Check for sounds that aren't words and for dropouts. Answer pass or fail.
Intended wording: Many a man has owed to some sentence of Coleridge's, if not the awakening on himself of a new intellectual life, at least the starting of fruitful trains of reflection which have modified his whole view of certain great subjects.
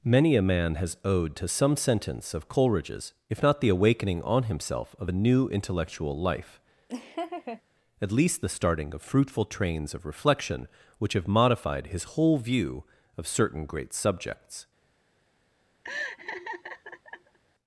fail